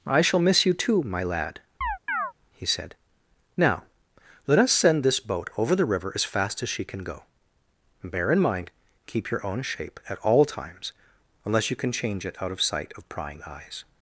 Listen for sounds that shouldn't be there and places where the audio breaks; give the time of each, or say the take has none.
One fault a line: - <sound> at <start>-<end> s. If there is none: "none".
- chirp at 1.8-2.3 s